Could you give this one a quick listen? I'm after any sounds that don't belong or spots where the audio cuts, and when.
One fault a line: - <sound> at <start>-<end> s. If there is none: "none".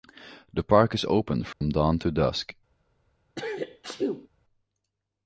- dropout at 1.5-1.6 s
- sneeze at 3.4-4.3 s